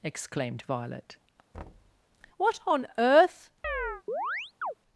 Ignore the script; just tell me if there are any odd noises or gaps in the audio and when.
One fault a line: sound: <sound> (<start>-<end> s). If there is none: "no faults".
sound: thud (1.5-2.0 s)
sound: chirp (3.6-4.7 s)